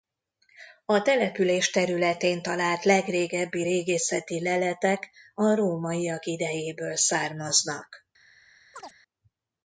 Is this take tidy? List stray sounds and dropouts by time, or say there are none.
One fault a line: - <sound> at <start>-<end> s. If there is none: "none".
- chirp at 8.7-9.0 s